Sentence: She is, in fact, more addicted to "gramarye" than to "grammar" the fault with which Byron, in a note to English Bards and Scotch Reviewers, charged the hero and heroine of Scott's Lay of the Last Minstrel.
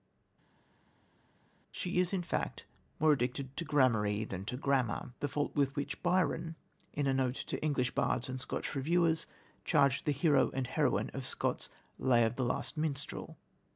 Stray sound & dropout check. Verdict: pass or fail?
pass